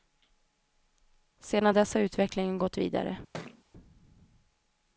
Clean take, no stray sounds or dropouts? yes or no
no